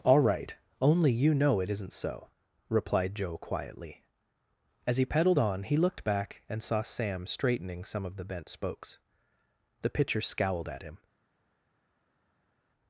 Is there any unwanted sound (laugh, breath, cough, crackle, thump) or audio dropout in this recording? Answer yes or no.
no